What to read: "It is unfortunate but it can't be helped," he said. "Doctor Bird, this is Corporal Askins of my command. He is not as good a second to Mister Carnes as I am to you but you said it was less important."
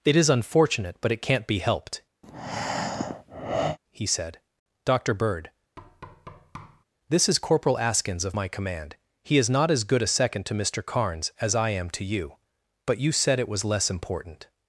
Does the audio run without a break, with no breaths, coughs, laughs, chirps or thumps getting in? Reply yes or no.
no